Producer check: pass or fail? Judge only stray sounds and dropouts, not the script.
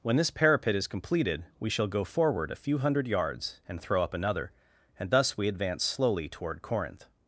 pass